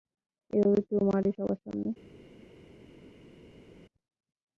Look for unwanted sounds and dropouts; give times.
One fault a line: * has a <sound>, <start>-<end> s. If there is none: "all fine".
all fine